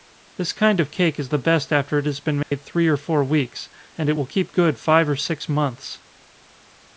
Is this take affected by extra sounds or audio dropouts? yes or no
yes